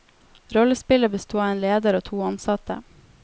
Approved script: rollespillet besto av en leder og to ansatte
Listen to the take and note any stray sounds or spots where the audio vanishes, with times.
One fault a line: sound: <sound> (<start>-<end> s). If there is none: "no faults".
no faults